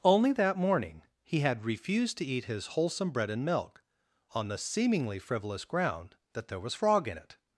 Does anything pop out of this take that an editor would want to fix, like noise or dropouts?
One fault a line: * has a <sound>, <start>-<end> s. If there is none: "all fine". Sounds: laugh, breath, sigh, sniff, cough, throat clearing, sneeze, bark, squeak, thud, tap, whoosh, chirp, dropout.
all fine